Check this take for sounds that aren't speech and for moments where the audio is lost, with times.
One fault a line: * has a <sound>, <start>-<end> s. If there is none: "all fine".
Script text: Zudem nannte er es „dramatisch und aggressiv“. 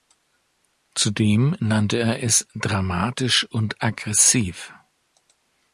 all fine